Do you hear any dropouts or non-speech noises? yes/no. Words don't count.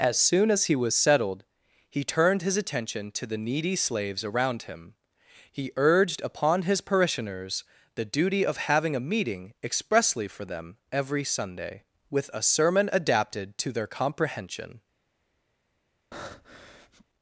yes